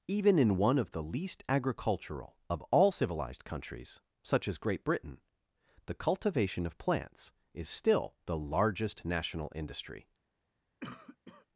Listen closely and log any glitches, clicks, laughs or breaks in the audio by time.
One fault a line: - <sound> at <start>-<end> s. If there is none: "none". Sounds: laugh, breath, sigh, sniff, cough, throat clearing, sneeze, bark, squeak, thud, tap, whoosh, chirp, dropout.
- cough at 10.8-11.5 s